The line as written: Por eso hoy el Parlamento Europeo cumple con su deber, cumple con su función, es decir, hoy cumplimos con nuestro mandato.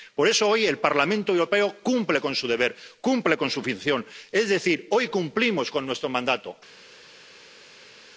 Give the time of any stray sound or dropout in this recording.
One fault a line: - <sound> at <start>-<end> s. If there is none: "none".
none